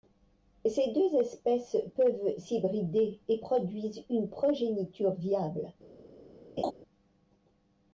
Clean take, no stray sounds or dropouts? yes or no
no